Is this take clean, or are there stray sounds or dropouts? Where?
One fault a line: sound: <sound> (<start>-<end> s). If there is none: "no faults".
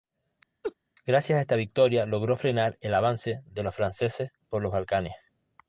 sound: laugh (0.6-0.7 s)